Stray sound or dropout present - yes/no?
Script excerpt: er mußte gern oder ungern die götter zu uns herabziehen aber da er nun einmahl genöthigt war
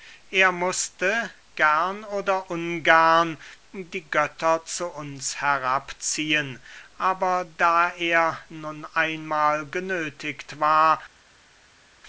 no